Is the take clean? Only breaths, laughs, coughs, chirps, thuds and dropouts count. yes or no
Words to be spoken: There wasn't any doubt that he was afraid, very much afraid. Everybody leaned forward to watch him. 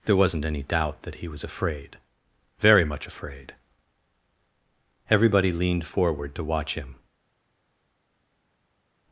yes